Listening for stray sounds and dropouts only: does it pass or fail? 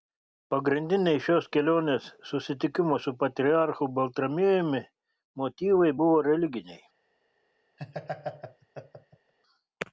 fail